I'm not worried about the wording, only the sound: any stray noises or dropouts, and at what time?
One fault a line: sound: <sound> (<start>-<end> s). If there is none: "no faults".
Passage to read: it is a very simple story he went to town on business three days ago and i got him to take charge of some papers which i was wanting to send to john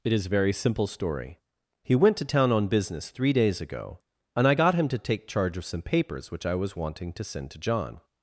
no faults